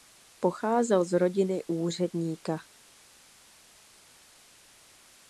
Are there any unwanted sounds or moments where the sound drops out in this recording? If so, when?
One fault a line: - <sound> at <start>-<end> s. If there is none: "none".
none